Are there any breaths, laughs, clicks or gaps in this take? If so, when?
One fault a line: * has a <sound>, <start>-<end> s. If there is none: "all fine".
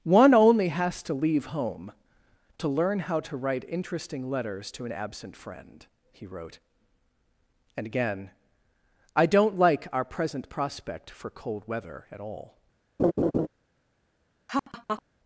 * has a laugh, 13.0-13.5 s
* has a laugh, 14.5-15.0 s